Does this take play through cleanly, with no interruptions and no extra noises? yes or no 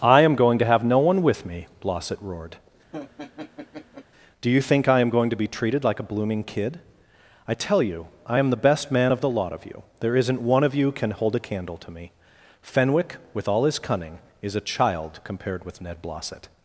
no